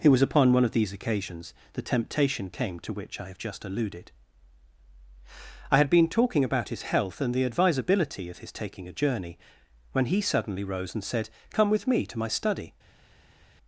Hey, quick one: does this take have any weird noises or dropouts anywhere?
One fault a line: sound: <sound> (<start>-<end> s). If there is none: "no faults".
no faults